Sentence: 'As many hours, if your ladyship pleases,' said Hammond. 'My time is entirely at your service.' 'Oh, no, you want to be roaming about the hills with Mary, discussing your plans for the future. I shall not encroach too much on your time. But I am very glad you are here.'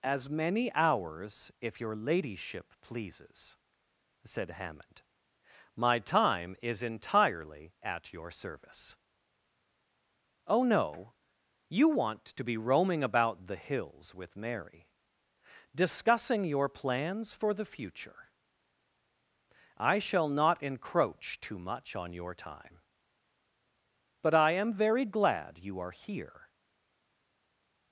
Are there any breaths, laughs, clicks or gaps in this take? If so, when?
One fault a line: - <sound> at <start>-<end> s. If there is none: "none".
none